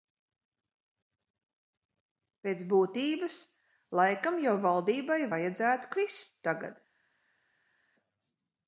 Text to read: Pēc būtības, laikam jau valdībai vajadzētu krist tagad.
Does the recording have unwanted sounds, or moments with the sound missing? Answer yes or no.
no